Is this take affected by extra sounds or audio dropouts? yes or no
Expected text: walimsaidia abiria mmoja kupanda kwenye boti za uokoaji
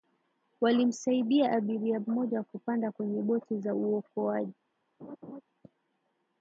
yes